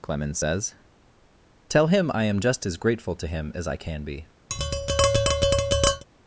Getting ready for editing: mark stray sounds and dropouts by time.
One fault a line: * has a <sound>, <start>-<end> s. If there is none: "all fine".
* has a tap, 4.5-6.0 s